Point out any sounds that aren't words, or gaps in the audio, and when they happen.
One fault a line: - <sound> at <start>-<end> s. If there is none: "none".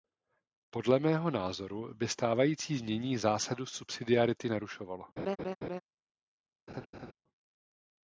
- laugh at 5.2-5.8 s
- laugh at 6.7-7.1 s